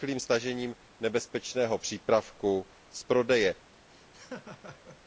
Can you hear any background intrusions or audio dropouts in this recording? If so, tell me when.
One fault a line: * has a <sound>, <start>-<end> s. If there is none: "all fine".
* has a laugh, 3.9-5.0 s